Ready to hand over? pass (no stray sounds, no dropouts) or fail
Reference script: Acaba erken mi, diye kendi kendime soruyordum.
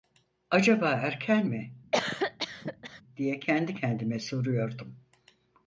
fail